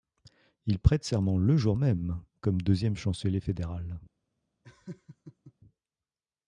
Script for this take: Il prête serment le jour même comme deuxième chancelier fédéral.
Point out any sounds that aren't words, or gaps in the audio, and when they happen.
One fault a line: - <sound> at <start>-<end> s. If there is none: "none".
- laugh at 4.6-5.5 s